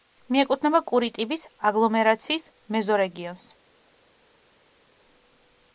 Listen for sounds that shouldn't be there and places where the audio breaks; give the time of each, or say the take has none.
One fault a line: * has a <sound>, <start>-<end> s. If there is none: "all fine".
all fine